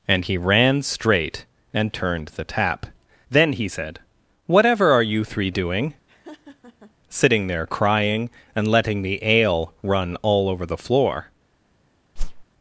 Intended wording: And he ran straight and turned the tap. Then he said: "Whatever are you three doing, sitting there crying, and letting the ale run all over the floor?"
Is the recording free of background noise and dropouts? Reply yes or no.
no